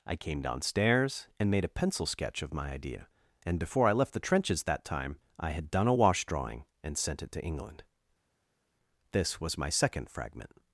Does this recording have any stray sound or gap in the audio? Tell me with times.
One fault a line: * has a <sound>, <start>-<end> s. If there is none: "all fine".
all fine